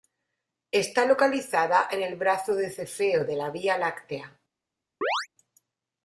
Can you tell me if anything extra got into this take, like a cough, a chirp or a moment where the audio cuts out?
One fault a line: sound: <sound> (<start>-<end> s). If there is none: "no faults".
sound: chirp (5.0-5.3 s)